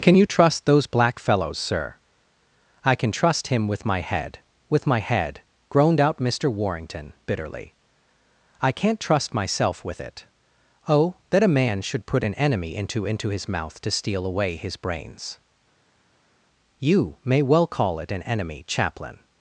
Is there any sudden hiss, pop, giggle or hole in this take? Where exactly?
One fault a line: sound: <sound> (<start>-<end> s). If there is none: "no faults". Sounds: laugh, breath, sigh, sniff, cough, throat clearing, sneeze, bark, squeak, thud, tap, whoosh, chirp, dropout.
no faults